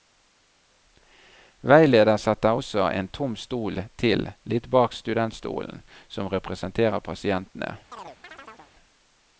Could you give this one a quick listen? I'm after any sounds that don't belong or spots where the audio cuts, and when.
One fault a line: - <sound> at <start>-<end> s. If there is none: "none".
- chirp at 7.9-8.7 s